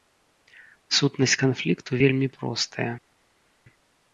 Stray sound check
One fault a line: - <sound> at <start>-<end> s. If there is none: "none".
none